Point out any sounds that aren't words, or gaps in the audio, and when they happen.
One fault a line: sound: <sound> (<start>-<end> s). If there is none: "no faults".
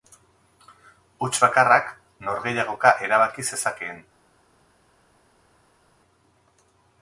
no faults